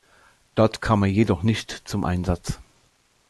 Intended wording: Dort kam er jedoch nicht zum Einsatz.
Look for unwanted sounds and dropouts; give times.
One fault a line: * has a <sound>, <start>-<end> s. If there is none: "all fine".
all fine